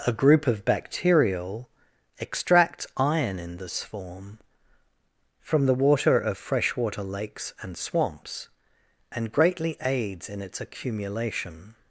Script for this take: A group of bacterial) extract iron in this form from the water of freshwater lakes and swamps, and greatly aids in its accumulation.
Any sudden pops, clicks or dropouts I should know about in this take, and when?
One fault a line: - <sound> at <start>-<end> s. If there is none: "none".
none